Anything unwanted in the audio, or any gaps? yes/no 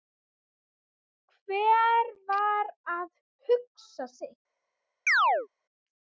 yes